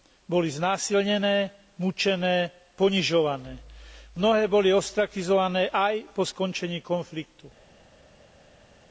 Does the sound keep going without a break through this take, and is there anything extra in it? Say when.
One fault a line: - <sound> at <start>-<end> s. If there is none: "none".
none